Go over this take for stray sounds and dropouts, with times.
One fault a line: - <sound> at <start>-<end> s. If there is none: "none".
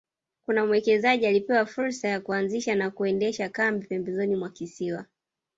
none